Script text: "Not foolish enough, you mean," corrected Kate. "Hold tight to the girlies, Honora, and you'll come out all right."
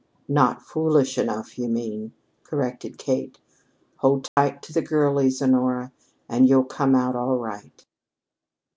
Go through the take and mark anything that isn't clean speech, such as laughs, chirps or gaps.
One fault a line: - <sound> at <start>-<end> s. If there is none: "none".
- dropout at 4.3-4.4 s